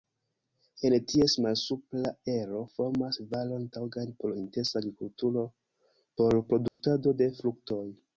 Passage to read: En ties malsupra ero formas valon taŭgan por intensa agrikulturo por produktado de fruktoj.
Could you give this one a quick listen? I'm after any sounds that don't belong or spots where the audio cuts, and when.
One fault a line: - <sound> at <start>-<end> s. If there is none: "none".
- dropout at 6.7-6.8 s